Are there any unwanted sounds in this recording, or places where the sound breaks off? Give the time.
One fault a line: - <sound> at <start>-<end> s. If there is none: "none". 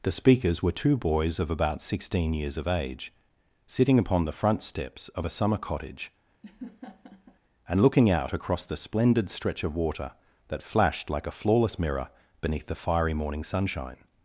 - laugh at 6.4-7.4 s